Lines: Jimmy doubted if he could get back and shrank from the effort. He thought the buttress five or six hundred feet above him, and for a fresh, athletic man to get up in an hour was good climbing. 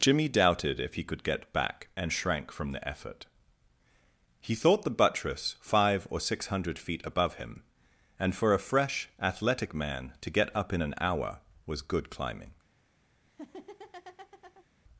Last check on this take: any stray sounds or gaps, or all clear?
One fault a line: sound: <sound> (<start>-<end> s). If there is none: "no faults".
sound: laugh (13.2-14.7 s)